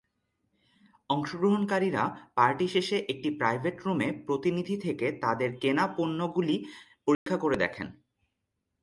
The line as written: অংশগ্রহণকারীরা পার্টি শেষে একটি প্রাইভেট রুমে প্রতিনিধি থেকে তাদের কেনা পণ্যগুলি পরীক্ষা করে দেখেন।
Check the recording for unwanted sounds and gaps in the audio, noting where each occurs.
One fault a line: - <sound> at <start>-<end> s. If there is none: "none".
- dropout at 7.1-7.3 s